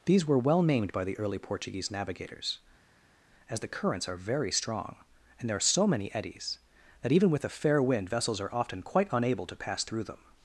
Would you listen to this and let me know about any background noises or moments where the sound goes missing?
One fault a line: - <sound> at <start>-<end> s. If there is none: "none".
none